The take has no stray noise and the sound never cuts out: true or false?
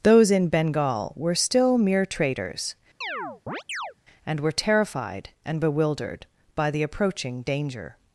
false